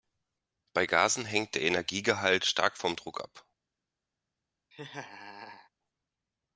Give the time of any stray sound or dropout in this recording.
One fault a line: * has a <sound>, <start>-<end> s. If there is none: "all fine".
* has a laugh, 4.7-5.7 s